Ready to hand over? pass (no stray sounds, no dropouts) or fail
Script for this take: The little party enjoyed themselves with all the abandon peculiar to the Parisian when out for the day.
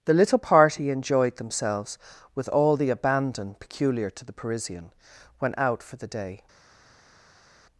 pass